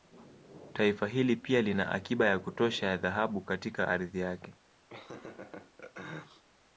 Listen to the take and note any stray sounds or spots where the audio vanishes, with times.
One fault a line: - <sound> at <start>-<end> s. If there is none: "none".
- laugh at 4.9-6.4 s